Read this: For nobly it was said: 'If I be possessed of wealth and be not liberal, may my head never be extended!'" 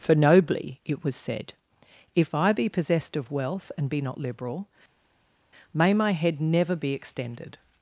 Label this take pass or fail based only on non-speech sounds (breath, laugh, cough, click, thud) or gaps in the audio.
pass